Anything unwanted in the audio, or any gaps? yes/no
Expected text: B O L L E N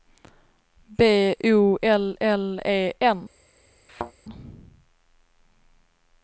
yes